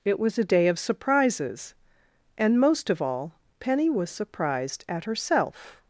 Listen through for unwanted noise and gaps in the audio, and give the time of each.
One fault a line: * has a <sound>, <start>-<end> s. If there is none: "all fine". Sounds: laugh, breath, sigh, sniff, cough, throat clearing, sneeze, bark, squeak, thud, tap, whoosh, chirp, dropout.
all fine